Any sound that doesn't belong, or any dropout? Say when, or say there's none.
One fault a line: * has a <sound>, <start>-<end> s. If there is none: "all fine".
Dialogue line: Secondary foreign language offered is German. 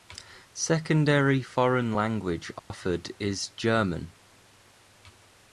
* has a dropout, 2.6-2.7 s